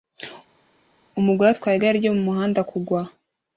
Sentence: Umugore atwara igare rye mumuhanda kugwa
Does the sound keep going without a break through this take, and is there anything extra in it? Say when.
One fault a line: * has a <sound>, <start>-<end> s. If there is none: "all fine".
all fine